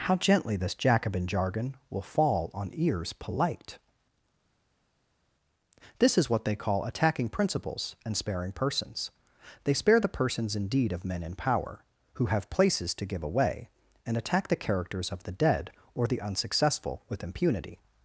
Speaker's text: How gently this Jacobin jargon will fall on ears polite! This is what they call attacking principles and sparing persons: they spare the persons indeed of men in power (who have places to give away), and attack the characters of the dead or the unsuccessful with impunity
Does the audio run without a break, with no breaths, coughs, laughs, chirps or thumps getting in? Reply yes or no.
yes